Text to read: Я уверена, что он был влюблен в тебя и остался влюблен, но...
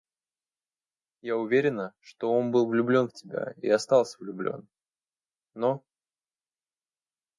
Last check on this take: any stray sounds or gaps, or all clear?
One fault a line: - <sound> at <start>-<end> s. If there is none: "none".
none